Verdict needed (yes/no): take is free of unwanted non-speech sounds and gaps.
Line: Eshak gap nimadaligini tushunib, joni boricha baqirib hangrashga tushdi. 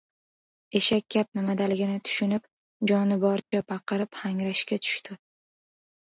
no